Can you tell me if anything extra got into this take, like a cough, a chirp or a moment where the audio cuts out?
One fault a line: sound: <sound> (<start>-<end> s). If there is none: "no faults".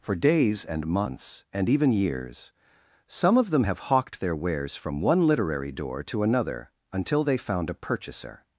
no faults